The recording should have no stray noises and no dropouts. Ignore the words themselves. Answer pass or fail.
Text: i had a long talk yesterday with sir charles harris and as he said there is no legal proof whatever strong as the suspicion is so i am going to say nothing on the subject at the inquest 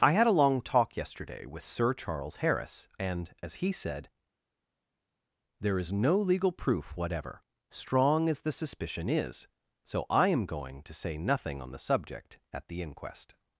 pass